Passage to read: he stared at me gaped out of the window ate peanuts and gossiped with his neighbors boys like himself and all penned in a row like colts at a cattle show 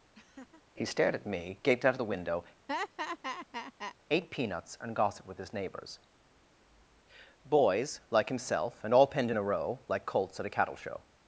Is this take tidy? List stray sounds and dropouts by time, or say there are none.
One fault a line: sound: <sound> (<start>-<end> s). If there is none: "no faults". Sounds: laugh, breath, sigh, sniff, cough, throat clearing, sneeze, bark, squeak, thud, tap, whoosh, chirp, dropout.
sound: laugh (0.1-0.6 s)
sound: laugh (2.7-4.0 s)